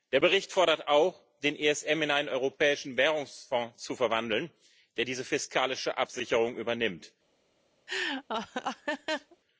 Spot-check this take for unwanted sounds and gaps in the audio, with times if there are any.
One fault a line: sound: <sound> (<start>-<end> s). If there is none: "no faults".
sound: laugh (7.9-9.4 s)